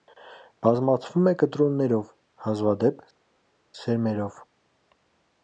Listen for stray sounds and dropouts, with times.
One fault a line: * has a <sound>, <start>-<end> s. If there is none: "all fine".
all fine